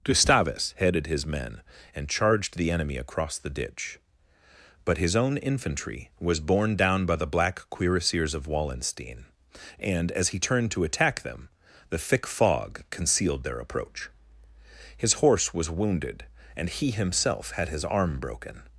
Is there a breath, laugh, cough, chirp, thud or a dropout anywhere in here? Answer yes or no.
no